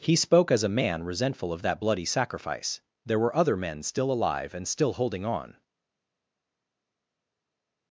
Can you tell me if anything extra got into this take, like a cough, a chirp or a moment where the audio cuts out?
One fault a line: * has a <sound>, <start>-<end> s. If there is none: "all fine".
all fine